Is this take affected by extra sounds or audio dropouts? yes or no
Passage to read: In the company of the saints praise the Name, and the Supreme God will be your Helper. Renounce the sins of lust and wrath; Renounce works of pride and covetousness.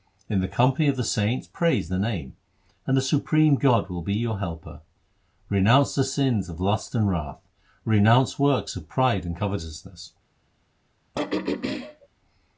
yes